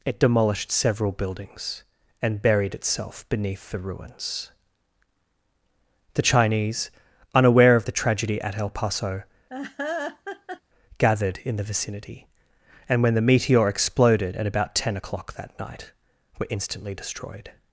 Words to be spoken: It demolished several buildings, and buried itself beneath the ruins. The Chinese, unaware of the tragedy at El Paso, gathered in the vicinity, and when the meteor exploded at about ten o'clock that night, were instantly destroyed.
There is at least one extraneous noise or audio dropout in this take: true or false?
true